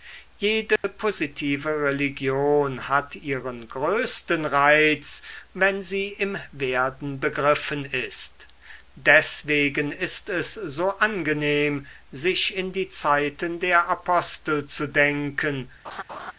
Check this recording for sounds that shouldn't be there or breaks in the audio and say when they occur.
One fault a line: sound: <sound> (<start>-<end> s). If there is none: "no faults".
sound: dropout (0.8-0.8 s)
sound: laugh (15.8-16.3 s)